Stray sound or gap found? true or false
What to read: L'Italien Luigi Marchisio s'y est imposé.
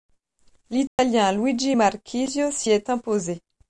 true